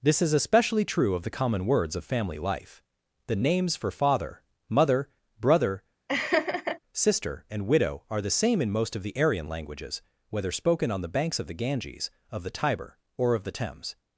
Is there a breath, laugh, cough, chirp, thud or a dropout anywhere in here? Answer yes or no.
yes